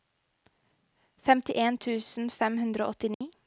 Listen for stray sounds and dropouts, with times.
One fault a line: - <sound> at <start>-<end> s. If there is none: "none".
- dropout at 3.1-3.2 s